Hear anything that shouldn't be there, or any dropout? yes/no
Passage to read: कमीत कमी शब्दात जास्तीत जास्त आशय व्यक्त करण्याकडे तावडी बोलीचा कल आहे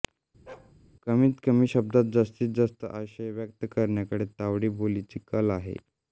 yes